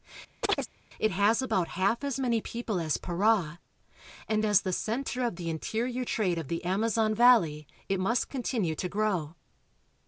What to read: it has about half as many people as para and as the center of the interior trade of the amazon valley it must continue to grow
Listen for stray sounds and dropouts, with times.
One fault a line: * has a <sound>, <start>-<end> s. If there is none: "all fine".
* has a chirp, 0.4-0.7 s